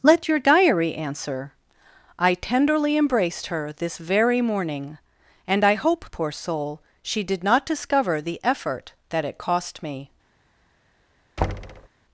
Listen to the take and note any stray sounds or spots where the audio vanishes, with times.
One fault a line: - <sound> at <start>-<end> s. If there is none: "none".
- thud at 11.4-11.9 s